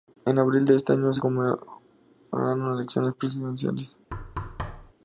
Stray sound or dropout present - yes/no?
yes